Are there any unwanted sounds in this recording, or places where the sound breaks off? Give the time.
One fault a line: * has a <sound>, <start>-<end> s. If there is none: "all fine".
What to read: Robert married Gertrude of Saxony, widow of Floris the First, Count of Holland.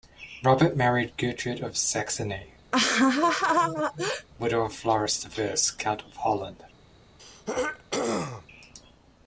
* has a laugh, 2.7-4.3 s
* has a throat clearing, 7.2-8.5 s